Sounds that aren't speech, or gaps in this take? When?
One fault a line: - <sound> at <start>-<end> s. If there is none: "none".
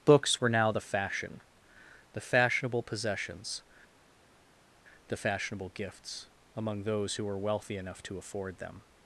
none